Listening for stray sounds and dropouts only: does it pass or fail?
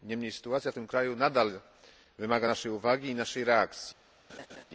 fail